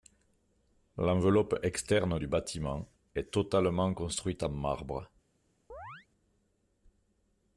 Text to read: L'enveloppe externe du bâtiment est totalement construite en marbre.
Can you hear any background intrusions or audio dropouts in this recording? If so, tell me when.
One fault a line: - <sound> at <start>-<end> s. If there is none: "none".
- chirp at 5.7-6.1 s